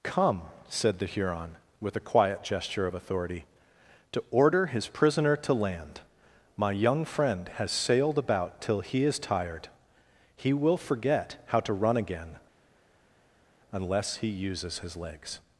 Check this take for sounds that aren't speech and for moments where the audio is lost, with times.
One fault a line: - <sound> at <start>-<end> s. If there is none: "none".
none